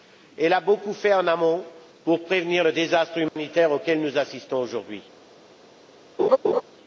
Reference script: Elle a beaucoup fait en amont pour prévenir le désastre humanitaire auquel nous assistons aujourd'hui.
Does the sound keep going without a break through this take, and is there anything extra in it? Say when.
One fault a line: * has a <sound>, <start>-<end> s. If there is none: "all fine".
* has a dropout, 3.3-3.4 s
* has a laugh, 6.2-6.6 s